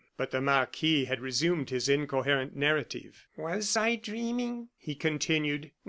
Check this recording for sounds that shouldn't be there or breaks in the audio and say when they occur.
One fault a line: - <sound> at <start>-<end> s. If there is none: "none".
none